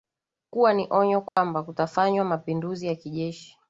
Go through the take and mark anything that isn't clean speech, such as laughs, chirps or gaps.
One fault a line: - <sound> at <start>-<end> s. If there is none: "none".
- dropout at 1.3-1.4 s